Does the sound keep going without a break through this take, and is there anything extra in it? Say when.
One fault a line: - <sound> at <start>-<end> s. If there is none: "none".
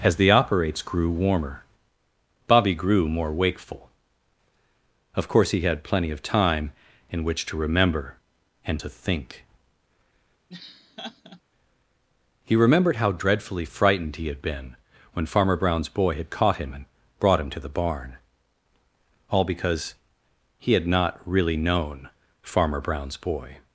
- laugh at 10.5-11.4 s